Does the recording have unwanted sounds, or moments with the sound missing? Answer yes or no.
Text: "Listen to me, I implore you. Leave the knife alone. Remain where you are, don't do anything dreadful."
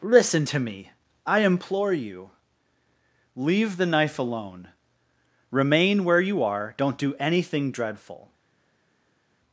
no